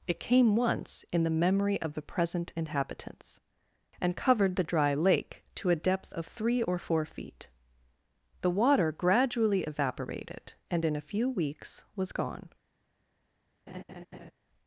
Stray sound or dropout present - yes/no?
yes